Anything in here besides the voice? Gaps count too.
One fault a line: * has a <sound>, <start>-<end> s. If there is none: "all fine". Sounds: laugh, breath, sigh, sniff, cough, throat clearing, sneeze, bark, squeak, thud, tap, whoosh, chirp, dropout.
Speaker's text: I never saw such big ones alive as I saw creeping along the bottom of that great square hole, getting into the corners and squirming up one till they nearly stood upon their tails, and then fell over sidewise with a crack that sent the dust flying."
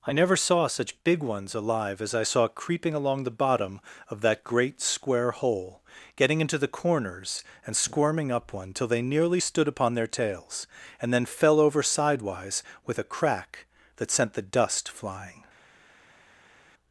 all fine